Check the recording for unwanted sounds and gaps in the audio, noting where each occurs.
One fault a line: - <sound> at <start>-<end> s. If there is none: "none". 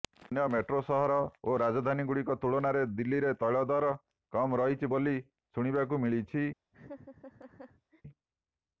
- laugh at 6.7-8.0 s